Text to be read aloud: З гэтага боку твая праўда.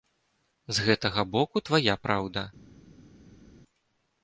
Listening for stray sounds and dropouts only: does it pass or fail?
pass